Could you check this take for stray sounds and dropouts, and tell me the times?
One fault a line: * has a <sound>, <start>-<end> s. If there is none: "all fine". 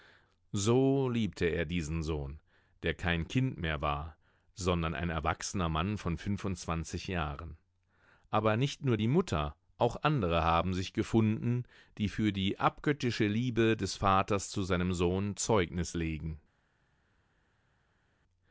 all fine